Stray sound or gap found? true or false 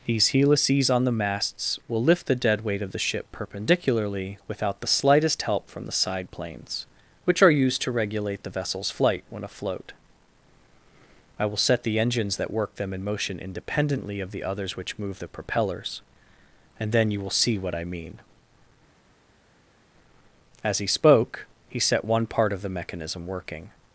false